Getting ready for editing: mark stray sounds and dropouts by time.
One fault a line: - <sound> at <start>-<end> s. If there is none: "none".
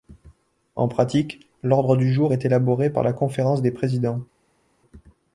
none